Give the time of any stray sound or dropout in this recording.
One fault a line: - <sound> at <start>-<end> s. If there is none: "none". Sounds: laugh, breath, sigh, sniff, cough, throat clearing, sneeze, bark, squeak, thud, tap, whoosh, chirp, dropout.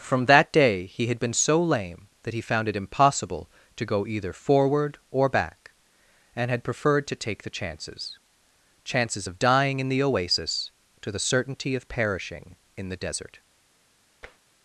- tap at 14.2-14.4 s